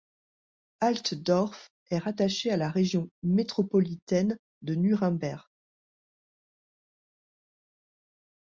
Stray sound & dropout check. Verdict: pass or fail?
pass